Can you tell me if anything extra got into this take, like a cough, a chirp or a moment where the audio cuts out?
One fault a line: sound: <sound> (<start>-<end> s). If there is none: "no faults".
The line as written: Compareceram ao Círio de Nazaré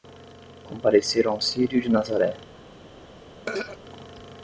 sound: throat clearing (3.5-3.8 s)